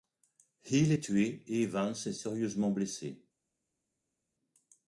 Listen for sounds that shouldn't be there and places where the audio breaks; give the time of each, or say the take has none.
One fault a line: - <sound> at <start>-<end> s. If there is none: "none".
none